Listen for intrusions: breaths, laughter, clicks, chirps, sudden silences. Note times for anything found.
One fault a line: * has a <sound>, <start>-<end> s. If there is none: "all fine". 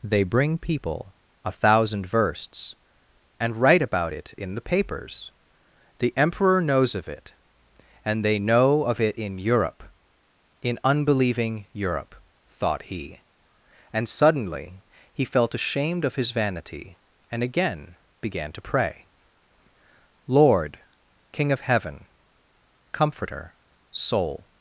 all fine